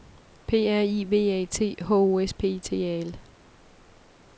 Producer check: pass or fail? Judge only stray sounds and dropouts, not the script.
pass